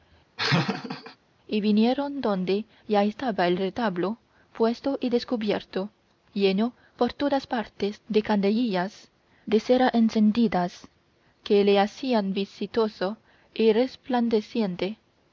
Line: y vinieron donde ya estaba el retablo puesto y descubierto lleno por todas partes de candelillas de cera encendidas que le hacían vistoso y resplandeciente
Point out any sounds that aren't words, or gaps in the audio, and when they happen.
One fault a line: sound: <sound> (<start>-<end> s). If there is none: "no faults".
sound: laugh (0.4-1.2 s)